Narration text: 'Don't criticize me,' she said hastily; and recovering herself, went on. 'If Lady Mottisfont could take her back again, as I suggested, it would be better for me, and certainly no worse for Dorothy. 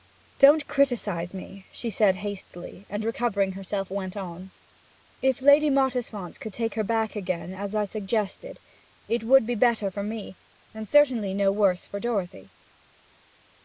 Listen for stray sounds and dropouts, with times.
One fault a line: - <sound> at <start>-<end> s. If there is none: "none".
none